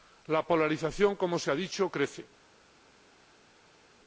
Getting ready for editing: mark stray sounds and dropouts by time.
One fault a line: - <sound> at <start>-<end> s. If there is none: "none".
none